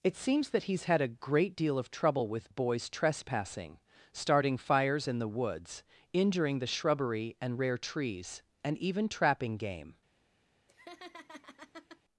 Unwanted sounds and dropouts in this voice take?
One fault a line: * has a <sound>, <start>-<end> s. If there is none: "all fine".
* has a laugh, 10.7-12.0 s